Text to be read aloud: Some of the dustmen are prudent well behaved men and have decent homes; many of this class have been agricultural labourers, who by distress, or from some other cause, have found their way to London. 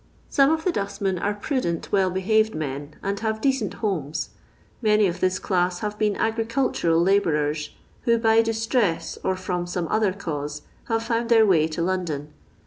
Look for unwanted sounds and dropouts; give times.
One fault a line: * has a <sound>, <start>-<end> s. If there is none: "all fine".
all fine